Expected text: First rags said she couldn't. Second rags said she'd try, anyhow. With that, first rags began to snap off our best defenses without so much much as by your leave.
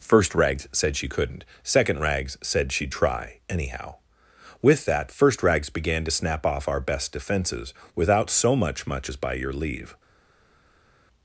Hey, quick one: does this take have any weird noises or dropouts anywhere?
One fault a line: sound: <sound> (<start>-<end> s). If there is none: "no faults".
no faults